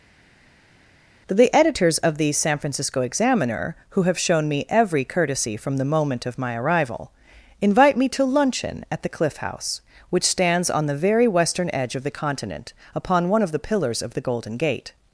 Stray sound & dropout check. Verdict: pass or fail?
pass